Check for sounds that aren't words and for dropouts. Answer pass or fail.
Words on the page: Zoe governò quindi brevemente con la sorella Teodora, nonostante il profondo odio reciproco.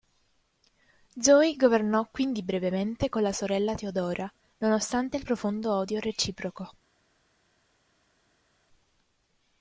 pass